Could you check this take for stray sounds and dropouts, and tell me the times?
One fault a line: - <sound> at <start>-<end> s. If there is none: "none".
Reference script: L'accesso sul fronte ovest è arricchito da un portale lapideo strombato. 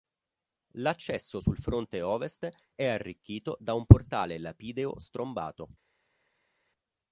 none